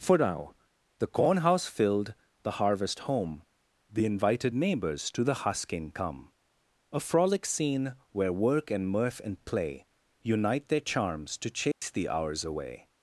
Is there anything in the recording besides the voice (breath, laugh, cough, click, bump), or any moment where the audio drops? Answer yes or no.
yes